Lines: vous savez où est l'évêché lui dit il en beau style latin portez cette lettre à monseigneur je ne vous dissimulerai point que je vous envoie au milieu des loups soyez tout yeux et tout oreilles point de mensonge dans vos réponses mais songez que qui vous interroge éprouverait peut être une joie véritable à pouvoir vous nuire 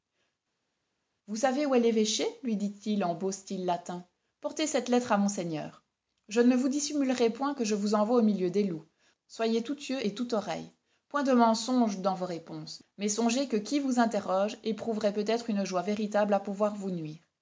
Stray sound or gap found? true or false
false